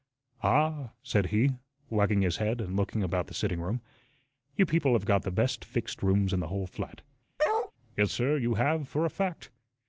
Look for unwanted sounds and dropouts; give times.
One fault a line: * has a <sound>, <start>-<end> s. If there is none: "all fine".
* has a bark, 7.4-7.7 s